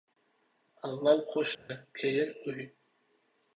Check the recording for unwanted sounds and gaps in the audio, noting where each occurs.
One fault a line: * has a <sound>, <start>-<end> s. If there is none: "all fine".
* has a dropout, 1.5-1.7 s